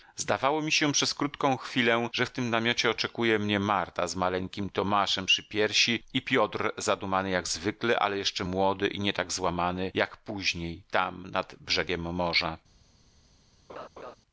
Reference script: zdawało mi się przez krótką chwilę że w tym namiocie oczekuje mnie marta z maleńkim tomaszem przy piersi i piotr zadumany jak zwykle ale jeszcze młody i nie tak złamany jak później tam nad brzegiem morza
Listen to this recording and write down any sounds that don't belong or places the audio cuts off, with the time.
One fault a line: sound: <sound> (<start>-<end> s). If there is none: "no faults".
sound: laugh (13.7-14.2 s)